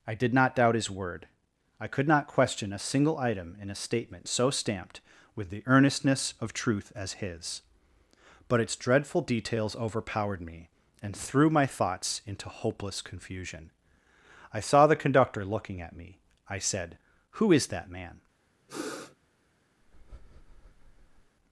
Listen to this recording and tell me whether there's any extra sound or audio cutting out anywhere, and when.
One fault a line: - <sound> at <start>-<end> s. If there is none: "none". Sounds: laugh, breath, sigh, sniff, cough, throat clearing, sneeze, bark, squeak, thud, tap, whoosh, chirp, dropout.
- sniff at 18.7-19.2 s
- breath at 19.8-21.4 s